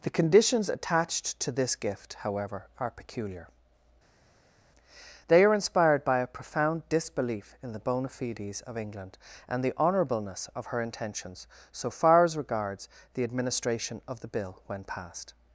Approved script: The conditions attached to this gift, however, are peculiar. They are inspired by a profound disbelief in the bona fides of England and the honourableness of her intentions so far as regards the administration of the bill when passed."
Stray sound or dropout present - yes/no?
no